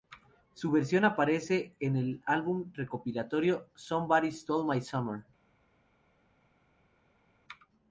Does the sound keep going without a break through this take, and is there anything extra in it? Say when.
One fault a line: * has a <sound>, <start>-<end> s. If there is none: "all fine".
all fine